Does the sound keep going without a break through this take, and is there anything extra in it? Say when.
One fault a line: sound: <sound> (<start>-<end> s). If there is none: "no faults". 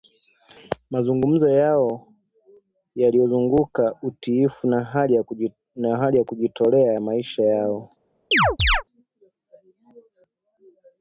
sound: chirp (8.3-8.8 s)